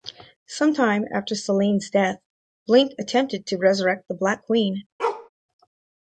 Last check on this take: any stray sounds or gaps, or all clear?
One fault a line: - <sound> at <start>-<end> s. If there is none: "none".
- bark at 5.0-5.3 s